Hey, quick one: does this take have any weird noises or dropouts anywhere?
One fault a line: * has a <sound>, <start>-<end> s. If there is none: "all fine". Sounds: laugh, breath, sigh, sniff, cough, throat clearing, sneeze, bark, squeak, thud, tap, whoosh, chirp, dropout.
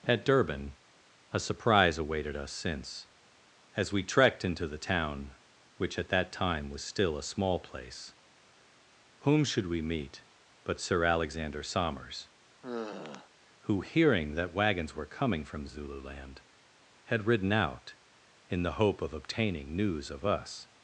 * has a sigh, 12.6-13.3 s